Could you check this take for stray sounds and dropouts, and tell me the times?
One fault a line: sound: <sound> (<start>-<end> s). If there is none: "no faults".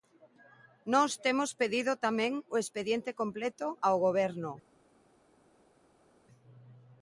no faults